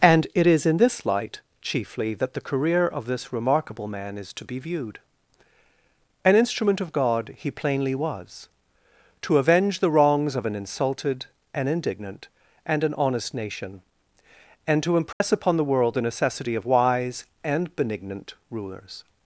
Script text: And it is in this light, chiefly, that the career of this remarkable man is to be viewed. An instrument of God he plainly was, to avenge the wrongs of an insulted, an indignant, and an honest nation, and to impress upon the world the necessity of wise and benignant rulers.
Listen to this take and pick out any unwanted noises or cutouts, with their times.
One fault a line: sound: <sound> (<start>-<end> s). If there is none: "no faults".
sound: dropout (15.1-15.2 s)